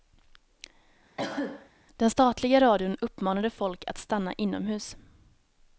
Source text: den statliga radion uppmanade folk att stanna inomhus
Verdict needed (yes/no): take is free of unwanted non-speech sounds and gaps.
no